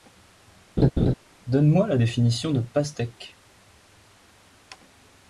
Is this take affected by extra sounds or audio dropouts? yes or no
yes